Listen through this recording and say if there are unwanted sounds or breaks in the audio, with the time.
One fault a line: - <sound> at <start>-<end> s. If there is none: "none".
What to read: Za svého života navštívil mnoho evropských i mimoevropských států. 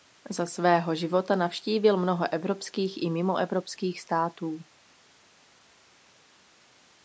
none